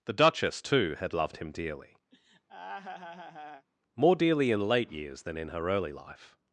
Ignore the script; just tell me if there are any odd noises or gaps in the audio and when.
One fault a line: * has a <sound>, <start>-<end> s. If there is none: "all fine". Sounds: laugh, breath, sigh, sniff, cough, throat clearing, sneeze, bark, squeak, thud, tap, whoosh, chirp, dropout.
* has a laugh, 2.1-3.7 s